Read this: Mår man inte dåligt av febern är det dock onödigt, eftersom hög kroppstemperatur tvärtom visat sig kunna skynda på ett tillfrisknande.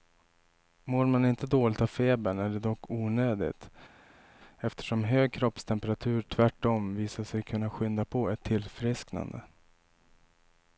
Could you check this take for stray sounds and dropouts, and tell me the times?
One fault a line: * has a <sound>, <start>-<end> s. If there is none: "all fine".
all fine